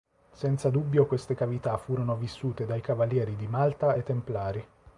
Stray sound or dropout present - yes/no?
no